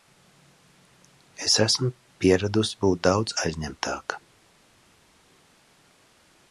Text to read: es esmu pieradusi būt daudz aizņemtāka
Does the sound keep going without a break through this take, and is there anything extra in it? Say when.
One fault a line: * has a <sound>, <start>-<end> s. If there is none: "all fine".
all fine